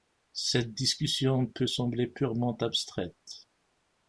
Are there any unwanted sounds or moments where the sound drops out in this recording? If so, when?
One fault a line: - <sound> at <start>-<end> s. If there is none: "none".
none